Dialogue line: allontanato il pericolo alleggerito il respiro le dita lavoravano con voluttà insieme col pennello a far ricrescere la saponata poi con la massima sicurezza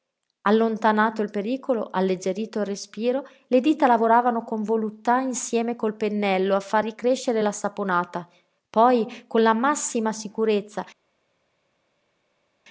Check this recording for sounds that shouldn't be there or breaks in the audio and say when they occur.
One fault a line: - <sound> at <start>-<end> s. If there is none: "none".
none